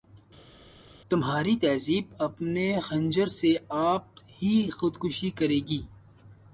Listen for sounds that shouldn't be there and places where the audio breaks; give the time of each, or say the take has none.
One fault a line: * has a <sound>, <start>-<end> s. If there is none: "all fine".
all fine